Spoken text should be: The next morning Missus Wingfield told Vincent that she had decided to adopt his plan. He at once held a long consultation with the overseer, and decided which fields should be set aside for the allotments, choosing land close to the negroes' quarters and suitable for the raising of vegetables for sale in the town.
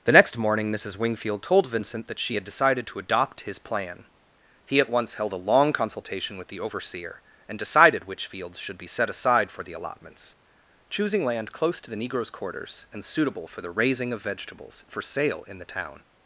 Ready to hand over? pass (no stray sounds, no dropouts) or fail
pass